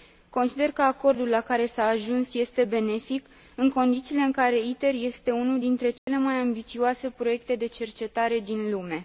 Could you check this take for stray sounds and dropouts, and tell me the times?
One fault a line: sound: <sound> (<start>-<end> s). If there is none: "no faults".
sound: dropout (6.0-6.1 s)